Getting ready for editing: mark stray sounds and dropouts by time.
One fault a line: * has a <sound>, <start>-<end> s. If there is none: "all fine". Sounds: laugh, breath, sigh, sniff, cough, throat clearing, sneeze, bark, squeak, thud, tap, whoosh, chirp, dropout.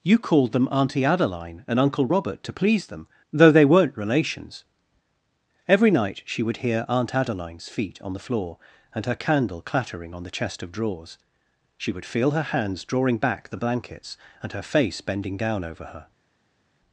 all fine